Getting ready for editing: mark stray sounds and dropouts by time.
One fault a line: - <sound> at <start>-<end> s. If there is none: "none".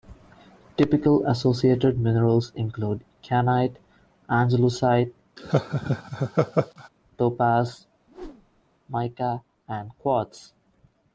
- laugh at 5.4-6.9 s
- whoosh at 8.1-8.6 s